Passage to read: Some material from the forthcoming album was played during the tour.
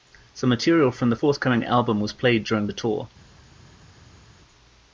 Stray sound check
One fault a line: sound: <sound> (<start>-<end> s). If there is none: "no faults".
no faults